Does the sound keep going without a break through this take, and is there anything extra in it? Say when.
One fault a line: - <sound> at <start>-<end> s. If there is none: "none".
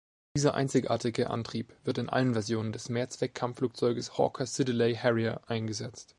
none